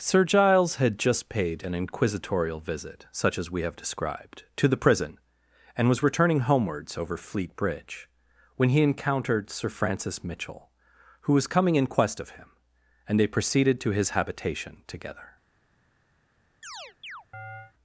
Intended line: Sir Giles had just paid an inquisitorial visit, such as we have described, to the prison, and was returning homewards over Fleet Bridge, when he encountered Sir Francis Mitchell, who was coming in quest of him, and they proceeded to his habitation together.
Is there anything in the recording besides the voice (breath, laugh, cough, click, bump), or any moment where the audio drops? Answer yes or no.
yes